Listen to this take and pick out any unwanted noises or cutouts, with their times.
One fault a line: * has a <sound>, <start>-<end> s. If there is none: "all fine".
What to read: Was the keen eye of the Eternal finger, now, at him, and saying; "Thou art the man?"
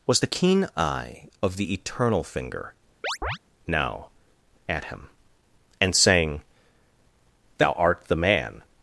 * has a chirp, 3.0-3.4 s